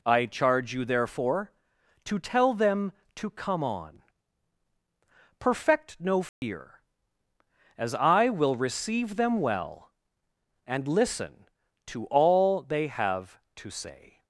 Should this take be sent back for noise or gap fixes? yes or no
yes